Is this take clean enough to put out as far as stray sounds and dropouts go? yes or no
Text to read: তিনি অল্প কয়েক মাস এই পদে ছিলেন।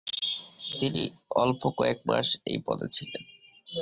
yes